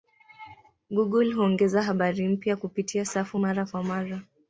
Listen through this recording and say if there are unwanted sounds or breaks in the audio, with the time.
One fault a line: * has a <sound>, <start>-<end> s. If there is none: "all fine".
all fine